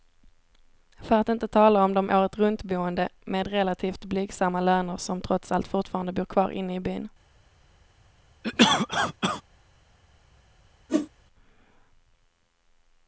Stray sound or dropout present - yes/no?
yes